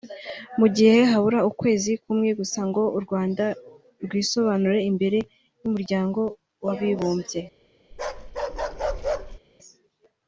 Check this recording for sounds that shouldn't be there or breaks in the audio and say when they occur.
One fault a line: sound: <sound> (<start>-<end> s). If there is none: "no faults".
sound: bark (7.9-9.4 s)